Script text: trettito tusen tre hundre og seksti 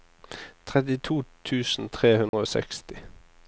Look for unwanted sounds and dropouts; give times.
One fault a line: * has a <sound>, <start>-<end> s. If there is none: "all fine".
* has a dropout, 2.3-2.3 s